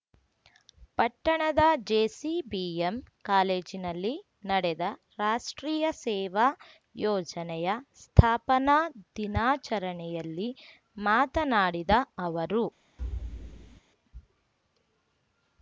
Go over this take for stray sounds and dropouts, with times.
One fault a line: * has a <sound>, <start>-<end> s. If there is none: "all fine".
* has a thud, 13.0-13.8 s